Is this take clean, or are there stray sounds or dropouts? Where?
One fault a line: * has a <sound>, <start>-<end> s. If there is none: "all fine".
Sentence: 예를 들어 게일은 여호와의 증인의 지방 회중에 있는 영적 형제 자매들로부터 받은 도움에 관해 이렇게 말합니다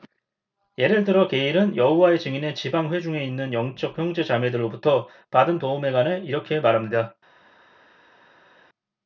all fine